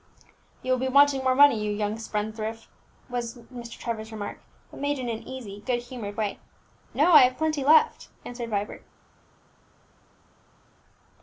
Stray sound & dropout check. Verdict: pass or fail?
pass